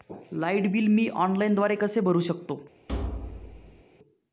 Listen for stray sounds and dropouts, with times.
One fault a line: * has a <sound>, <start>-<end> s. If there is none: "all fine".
* has a thud, 2.9-3.8 s